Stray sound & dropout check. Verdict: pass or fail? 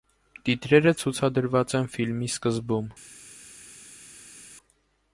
pass